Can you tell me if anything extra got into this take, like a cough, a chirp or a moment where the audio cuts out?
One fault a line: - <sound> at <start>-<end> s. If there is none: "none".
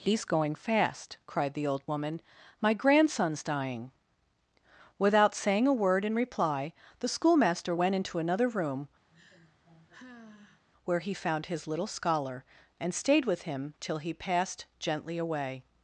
- sigh at 9.1-10.6 s